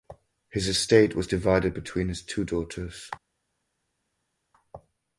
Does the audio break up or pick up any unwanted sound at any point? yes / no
no